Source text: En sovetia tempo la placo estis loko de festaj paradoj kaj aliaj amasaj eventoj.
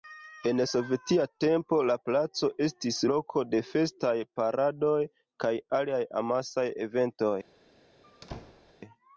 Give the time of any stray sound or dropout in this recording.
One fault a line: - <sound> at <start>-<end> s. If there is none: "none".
- squeak at 8.0-8.7 s